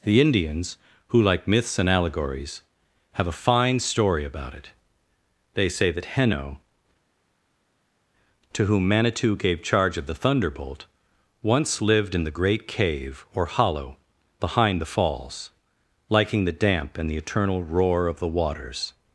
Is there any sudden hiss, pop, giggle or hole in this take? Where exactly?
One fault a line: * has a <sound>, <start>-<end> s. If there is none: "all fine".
all fine